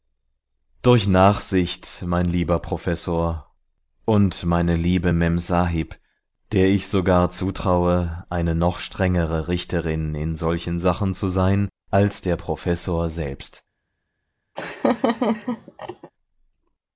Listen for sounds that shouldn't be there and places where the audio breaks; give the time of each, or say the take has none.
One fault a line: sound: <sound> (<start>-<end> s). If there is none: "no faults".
sound: laugh (14.6-16.1 s)